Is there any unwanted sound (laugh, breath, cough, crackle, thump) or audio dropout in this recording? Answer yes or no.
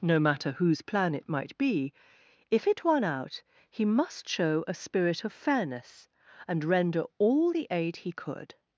no